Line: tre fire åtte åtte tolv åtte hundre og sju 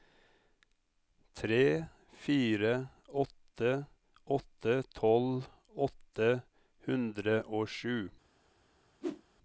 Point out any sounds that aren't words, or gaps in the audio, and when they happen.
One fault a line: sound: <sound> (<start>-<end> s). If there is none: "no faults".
sound: whoosh (9.0-9.2 s)